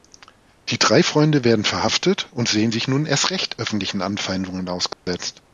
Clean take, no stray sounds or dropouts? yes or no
no